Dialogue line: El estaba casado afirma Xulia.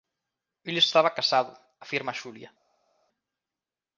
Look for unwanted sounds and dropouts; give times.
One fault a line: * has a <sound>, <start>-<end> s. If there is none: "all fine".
all fine